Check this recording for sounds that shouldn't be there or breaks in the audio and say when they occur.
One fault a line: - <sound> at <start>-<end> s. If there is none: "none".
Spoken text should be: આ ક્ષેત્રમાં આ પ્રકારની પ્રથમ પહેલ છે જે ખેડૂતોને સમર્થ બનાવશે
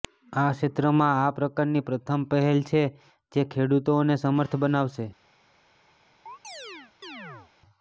- chirp at 6.3-7.5 s